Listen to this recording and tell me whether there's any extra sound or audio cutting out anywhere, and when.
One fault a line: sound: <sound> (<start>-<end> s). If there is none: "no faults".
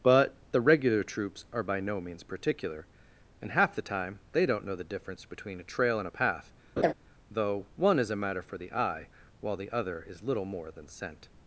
sound: laugh (6.8-6.9 s)